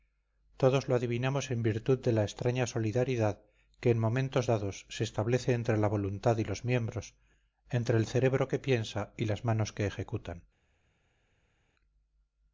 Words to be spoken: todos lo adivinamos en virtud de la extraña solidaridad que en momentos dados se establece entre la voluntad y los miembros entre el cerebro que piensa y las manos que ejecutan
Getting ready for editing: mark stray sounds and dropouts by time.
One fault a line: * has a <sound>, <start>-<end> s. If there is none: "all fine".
all fine